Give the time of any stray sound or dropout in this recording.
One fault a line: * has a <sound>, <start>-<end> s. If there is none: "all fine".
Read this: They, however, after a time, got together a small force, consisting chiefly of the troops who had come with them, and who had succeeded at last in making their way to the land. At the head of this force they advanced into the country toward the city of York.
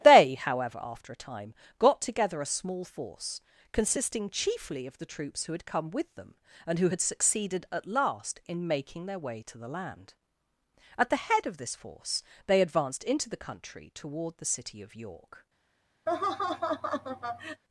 * has a laugh, 16.1-17.6 s